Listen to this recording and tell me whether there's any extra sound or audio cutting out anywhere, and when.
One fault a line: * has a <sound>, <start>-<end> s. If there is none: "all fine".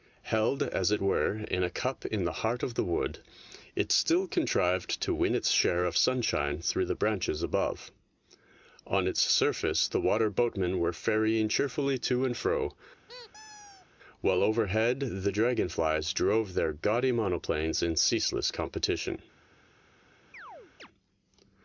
* has a squeak, 13.1-13.9 s
* has a chirp, 20.3-20.9 s